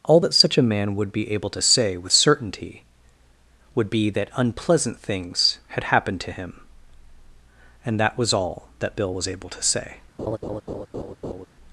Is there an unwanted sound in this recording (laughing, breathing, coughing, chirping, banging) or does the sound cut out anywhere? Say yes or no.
yes